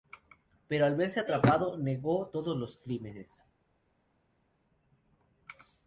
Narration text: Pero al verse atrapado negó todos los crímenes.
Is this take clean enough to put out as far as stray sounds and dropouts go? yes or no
yes